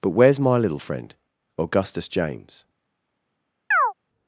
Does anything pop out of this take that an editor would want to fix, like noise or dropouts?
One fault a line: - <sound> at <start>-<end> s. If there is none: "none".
- chirp at 3.7-3.9 s